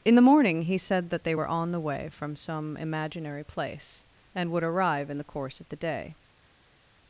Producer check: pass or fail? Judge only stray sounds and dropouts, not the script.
pass